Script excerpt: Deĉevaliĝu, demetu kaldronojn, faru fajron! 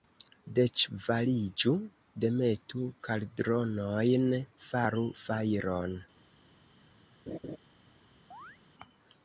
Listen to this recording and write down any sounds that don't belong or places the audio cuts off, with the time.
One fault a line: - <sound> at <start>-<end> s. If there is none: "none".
- laugh at 7.3-7.6 s
- chirp at 8.3-8.6 s